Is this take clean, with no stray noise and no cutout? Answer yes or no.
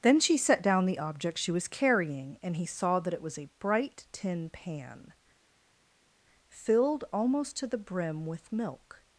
yes